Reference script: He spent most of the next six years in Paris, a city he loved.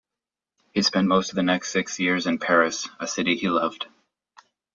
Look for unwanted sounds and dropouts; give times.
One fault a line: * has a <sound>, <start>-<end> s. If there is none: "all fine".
all fine